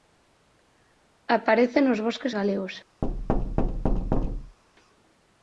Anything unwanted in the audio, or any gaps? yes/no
yes